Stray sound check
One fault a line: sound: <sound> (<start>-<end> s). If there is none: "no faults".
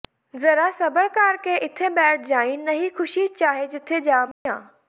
sound: dropout (4.3-4.5 s)